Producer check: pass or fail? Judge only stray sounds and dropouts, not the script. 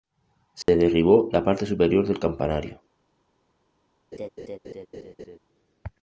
fail